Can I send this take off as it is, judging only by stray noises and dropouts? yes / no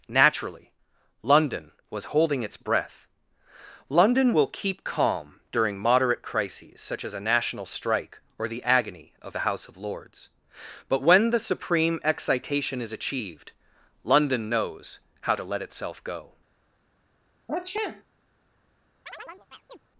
no